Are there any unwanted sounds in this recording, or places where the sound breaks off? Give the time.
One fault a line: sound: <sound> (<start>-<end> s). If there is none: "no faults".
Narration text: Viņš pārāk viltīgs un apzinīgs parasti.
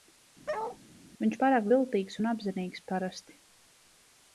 sound: bark (0.5-0.8 s)